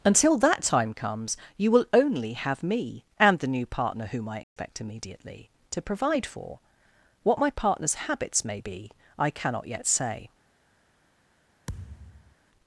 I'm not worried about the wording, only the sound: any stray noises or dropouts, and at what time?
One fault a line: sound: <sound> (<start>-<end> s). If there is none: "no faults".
sound: dropout (4.4-4.6 s)
sound: thud (11.7-12.4 s)